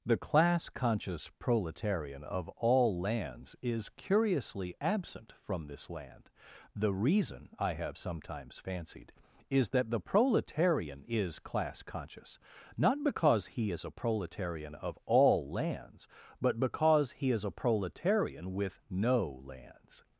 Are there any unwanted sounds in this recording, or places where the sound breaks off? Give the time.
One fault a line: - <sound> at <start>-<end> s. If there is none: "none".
none